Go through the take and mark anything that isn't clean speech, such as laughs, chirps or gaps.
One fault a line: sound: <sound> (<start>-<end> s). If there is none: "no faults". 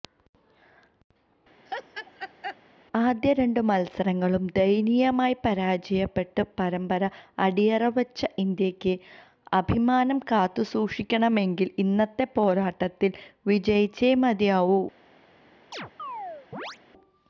sound: laugh (1.7-2.6 s)
sound: chirp (15.7-16.8 s)